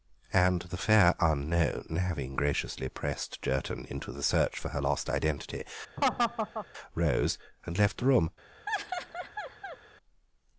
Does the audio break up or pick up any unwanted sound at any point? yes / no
yes